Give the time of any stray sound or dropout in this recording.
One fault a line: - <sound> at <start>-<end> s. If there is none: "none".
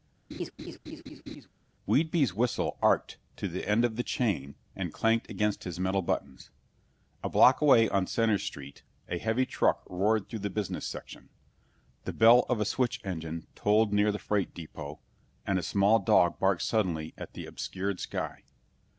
- laugh at 0.3-1.5 s